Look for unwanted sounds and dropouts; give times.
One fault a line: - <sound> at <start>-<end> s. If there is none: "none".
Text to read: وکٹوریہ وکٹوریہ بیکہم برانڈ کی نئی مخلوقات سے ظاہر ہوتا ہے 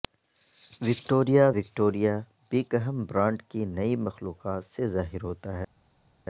none